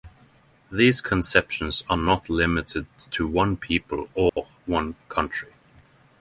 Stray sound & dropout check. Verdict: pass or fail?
fail